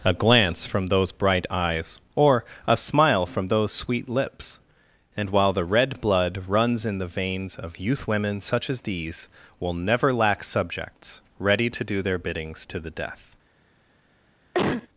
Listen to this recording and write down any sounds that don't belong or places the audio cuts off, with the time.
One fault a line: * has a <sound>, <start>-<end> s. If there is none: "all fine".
* has a cough, 14.5-14.9 s